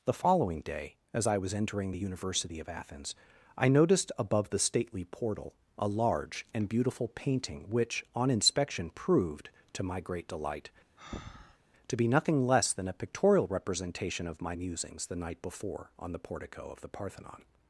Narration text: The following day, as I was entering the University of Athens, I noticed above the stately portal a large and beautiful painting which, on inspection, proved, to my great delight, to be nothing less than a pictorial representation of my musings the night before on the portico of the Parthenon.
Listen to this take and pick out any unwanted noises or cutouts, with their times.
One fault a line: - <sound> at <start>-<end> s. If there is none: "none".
- breath at 11.0-11.6 s